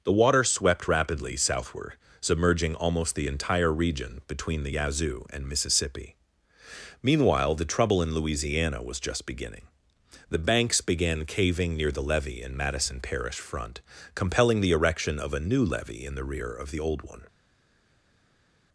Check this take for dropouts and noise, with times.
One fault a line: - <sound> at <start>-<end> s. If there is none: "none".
none